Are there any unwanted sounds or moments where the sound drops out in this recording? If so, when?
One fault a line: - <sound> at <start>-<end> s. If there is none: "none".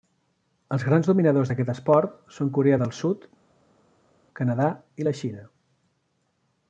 none